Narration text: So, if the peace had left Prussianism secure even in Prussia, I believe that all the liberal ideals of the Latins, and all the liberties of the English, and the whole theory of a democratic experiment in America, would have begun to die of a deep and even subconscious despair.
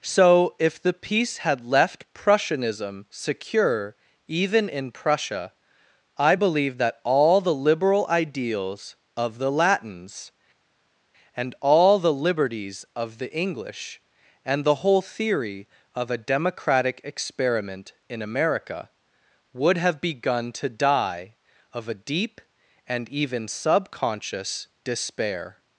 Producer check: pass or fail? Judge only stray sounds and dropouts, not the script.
pass